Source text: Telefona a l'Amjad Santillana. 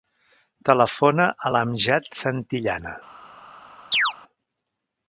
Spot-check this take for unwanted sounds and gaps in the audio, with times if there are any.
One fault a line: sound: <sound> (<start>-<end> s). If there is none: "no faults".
sound: chirp (3.9-4.1 s)